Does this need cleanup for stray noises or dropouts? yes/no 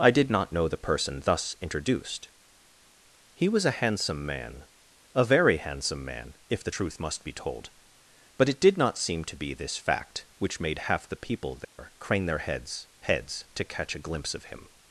yes